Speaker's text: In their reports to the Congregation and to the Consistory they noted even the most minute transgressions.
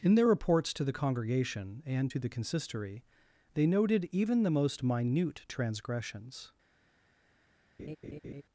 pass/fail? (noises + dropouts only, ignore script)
fail